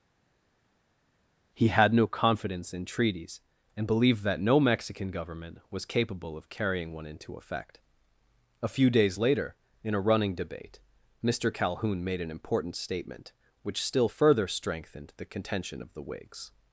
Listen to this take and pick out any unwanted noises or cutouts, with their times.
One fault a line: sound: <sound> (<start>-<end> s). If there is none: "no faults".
no faults